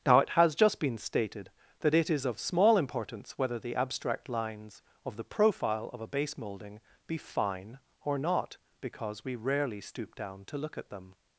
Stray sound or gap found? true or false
false